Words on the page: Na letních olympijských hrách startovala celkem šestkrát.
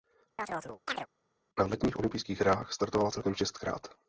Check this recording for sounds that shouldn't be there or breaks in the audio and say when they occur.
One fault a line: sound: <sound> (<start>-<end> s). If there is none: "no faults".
sound: chirp (0.4-1.1 s)